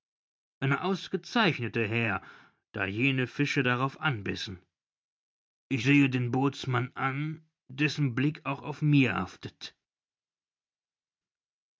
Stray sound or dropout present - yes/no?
no